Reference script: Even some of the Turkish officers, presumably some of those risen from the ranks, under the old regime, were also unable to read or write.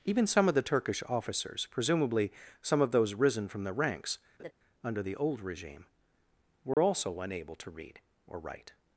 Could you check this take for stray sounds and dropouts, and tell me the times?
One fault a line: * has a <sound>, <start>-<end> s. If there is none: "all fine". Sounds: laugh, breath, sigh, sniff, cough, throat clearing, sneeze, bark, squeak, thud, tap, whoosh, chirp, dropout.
* has a laugh, 4.4-4.5 s
* has a dropout, 6.7-6.8 s